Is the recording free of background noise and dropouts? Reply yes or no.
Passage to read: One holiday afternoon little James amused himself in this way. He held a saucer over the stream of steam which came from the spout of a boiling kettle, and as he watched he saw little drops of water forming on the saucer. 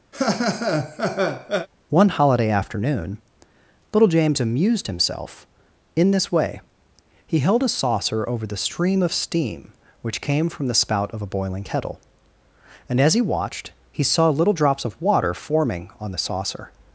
no